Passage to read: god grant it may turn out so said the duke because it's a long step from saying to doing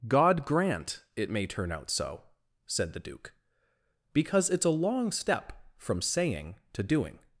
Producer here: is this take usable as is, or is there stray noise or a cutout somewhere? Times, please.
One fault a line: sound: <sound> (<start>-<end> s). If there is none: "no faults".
no faults